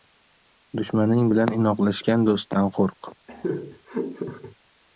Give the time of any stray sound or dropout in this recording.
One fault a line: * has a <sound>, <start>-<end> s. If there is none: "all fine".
* has a laugh, 3.3-4.6 s